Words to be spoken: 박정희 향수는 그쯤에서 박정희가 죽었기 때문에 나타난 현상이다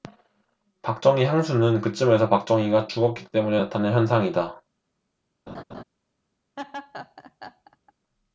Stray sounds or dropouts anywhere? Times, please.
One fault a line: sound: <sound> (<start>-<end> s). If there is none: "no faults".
sound: laugh (5.5-5.8 s)
sound: laugh (6.6-7.9 s)